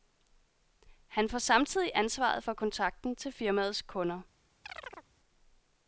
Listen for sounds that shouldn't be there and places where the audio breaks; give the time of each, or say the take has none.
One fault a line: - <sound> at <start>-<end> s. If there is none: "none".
- chirp at 4.6-5.1 s